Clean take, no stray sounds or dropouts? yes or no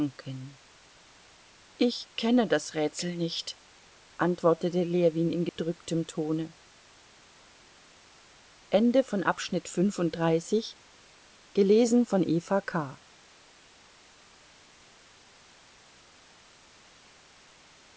no